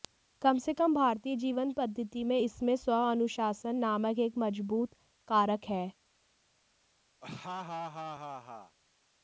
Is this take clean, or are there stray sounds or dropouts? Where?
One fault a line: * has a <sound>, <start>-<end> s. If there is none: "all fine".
* has a laugh, 7.2-8.8 s